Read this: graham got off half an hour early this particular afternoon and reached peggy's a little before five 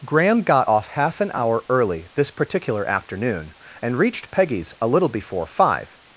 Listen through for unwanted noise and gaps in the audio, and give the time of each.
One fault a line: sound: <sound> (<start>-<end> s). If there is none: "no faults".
no faults